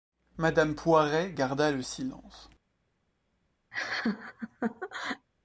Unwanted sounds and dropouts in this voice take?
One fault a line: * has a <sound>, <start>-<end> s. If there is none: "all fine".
* has a laugh, 3.7-5.3 s